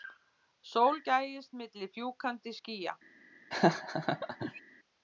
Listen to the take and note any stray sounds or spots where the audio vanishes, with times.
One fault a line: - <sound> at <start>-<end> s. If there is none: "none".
- laugh at 3.5-4.6 s